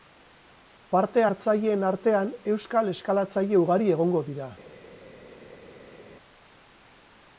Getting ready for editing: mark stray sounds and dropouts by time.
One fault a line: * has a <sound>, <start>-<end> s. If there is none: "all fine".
all fine